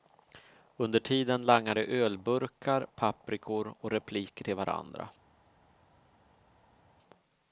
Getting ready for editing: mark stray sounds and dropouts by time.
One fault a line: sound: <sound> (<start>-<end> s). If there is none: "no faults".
no faults